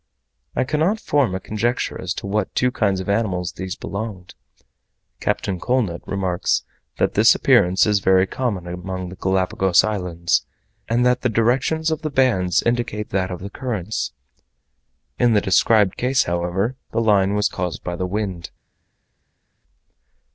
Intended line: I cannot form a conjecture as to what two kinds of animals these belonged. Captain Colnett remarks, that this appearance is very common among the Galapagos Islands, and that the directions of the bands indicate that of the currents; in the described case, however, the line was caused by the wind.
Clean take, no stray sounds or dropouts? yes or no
yes